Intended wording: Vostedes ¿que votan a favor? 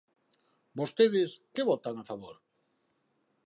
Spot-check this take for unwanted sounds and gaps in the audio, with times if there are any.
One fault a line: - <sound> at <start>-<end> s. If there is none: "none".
none